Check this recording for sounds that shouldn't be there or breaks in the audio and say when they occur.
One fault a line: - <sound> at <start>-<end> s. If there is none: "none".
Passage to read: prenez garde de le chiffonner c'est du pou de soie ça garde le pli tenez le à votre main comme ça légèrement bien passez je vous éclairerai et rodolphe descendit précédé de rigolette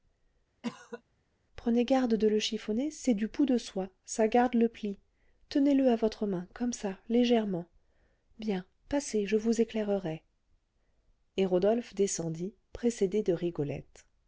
- cough at 0.6-1.0 s